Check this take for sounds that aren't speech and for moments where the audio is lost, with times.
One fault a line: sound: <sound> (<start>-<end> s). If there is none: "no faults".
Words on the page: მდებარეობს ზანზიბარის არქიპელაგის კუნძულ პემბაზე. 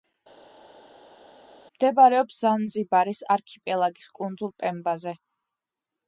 no faults